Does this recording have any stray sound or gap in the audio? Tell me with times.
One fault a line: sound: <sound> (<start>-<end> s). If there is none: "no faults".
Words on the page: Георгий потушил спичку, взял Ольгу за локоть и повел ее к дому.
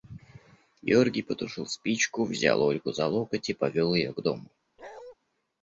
sound: bark (4.8-5.2 s)